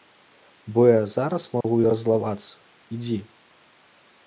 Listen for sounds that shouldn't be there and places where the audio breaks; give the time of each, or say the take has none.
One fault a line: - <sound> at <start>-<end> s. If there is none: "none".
- dropout at 1.6-1.6 s